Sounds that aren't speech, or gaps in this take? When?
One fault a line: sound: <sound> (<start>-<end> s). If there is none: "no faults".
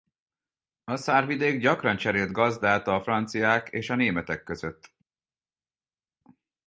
no faults